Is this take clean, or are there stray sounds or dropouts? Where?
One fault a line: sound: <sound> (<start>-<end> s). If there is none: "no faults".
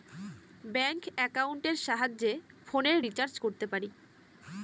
no faults